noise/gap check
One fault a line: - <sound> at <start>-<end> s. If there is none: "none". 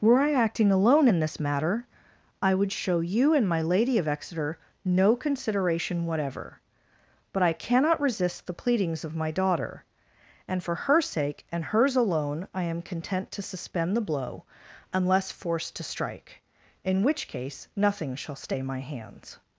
none